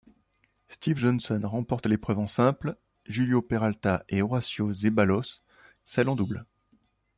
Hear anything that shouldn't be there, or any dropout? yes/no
no